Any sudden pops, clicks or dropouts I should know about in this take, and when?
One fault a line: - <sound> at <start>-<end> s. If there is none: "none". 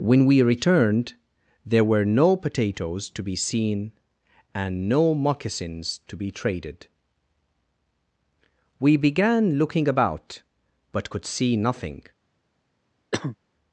- cough at 13.1-13.4 s